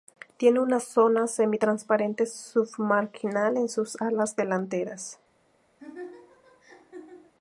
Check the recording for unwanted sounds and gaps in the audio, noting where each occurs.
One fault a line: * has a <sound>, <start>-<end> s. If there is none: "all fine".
* has a laugh, 5.8-7.3 s